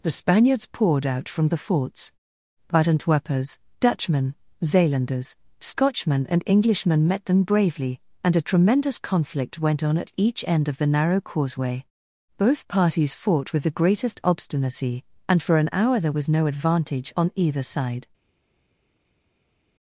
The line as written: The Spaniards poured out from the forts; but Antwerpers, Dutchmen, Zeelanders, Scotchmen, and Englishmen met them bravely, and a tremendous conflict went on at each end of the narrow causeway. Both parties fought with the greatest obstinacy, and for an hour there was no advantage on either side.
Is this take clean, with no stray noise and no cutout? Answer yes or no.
yes